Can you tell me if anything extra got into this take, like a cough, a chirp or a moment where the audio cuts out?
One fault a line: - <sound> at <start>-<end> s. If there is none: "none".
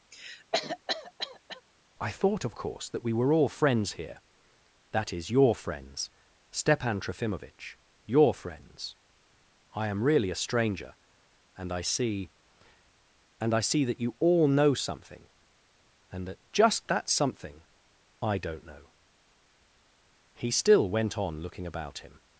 - cough at 0.1-1.6 s